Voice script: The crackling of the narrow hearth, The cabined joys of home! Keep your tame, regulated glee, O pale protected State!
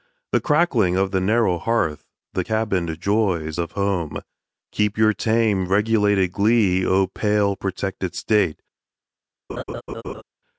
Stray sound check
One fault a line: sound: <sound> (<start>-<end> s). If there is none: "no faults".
sound: laugh (9.5-10.2 s)